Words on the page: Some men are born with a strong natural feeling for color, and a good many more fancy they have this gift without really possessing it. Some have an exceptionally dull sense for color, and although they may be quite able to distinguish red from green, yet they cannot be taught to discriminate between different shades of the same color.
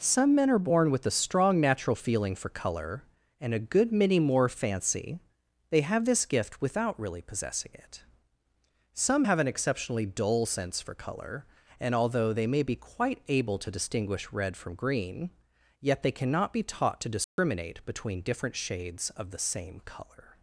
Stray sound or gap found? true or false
true